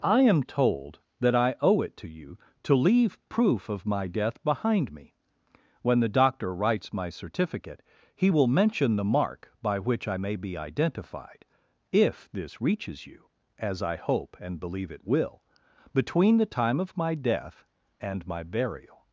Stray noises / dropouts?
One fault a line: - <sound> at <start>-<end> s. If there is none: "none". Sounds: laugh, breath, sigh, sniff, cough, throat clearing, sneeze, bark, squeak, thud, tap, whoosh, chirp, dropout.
none